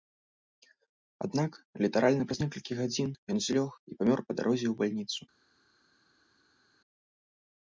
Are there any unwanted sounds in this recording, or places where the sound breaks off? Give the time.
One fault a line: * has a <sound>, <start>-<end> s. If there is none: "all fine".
all fine